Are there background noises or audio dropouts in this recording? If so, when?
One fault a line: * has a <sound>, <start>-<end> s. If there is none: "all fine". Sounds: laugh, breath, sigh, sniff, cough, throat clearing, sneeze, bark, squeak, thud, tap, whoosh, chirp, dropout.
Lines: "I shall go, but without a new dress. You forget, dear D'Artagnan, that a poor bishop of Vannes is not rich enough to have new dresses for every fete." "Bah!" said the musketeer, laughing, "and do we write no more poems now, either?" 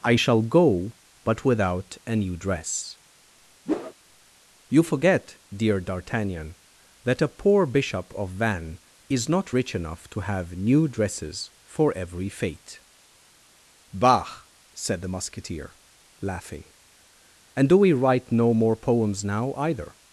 * has a whoosh, 3.7-3.9 s